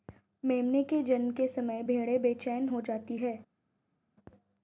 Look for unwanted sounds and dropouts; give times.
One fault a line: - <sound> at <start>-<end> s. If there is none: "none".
none